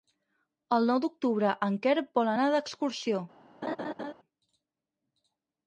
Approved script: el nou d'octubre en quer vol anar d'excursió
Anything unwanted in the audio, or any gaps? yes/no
yes